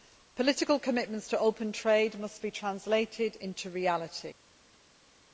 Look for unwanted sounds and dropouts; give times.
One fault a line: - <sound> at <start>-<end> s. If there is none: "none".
none